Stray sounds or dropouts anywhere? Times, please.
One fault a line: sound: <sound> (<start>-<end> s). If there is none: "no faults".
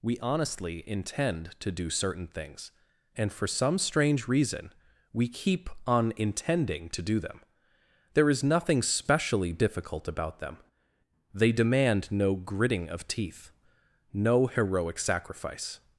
no faults